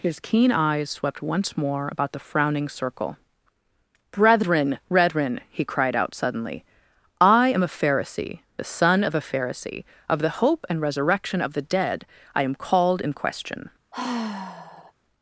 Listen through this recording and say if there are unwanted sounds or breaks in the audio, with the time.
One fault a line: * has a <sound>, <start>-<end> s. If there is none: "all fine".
* has a sigh, 13.9-14.9 s